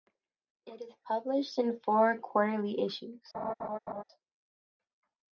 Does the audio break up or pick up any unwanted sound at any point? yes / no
yes